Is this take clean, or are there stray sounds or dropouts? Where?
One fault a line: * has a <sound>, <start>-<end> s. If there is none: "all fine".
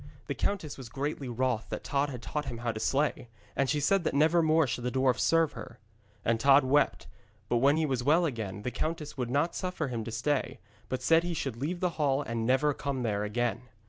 all fine